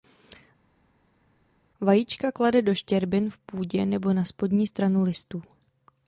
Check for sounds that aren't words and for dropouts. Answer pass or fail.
pass